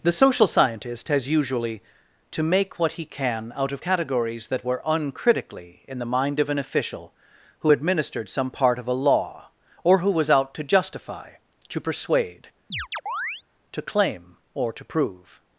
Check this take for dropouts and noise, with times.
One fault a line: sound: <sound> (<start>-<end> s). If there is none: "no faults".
sound: chirp (12.7-13.4 s)